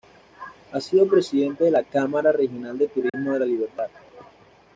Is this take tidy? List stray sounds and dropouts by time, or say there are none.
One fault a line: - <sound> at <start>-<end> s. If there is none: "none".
- dropout at 3.1-3.1 s